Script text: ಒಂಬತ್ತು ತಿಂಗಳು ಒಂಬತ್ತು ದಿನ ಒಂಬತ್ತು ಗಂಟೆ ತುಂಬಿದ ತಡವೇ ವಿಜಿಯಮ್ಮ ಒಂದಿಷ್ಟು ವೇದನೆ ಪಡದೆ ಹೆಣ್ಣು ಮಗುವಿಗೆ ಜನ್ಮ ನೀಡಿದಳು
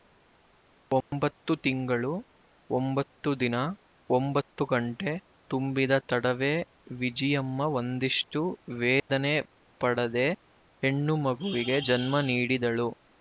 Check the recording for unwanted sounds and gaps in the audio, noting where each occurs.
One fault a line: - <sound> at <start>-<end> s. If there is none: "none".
- dropout at 1.0-1.1 s
- dropout at 9.0-9.1 s